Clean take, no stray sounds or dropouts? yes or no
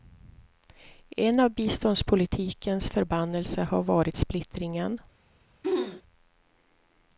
no